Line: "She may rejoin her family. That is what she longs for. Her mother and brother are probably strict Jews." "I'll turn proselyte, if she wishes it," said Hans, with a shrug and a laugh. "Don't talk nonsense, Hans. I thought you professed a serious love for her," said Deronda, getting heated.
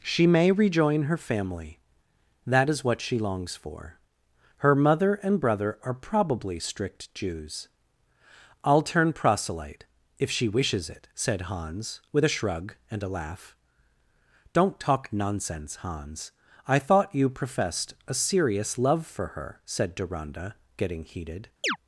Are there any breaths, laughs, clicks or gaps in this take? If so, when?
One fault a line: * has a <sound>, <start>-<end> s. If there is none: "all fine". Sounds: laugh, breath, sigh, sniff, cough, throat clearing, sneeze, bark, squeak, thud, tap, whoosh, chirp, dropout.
* has a chirp, 21.6-21.8 s